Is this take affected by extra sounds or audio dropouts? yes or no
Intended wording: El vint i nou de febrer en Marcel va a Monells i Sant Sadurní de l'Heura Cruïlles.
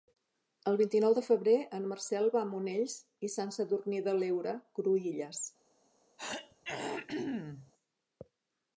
yes